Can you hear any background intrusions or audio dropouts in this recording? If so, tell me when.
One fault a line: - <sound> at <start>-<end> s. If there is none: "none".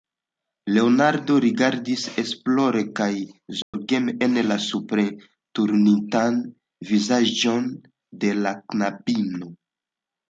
- dropout at 3.6-3.7 s